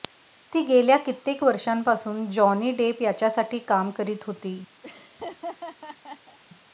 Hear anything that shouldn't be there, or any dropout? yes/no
yes